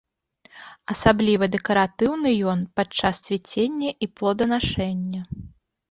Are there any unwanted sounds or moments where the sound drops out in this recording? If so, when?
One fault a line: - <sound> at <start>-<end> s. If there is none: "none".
none